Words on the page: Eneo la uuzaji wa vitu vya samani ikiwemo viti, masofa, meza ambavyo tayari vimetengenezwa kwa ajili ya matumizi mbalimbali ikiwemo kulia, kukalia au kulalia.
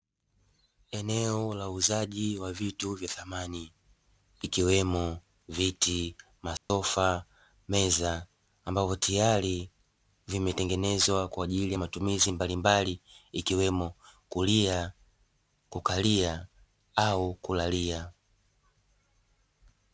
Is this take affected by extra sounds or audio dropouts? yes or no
yes